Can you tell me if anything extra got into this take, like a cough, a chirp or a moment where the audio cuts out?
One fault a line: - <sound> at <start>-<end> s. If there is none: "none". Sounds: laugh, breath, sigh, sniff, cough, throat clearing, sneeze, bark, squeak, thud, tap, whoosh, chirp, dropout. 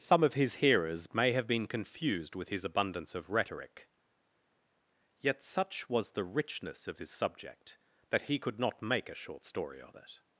none